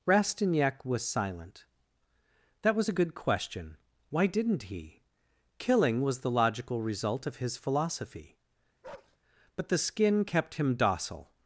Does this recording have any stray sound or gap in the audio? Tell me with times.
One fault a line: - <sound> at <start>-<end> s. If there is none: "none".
- bark at 8.8-9.2 s